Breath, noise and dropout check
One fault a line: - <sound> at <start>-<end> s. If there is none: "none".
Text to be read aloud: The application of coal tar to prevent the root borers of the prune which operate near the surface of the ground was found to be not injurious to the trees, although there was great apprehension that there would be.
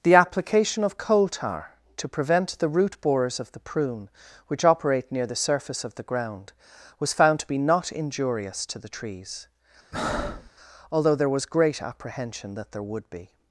- breath at 9.9-10.5 s